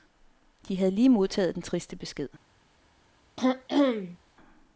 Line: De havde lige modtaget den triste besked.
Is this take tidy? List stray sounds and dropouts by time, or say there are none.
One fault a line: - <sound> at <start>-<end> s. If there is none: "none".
- throat clearing at 3.4-4.2 s